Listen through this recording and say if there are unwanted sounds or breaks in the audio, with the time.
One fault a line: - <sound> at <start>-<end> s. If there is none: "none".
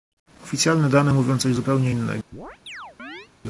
- chirp at 2.3-3.3 s